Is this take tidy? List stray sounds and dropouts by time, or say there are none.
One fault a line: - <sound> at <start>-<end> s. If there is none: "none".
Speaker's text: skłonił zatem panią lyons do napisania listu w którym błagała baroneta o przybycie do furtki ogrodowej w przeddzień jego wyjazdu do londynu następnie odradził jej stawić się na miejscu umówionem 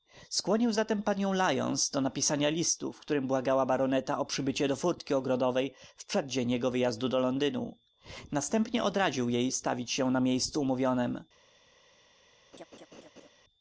- laugh at 12.5-13.3 s